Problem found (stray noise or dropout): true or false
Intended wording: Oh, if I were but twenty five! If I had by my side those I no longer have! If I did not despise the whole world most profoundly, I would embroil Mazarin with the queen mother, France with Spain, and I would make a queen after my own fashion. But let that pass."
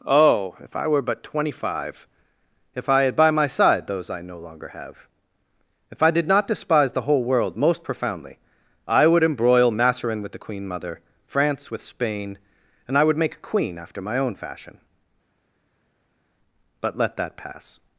false